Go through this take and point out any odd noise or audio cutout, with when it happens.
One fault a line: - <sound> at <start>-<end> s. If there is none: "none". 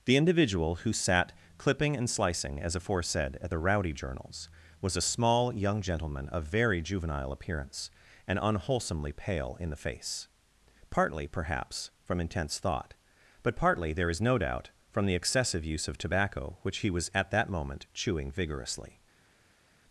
none